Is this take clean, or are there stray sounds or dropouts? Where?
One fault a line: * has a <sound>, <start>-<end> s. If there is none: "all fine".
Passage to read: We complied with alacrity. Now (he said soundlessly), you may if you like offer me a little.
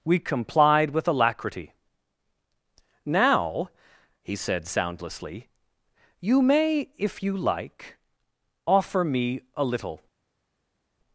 all fine